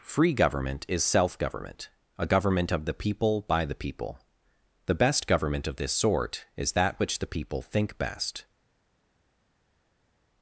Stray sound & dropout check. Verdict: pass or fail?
pass